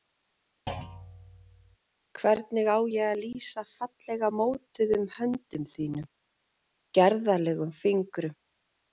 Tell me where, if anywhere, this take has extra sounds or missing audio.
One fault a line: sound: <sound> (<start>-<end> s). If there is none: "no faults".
sound: thud (0.7-1.8 s)